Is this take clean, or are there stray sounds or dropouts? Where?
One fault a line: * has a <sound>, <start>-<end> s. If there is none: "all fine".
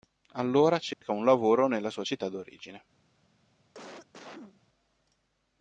* has a dropout, 0.9-1.0 s
* has a cough, 3.7-4.6 s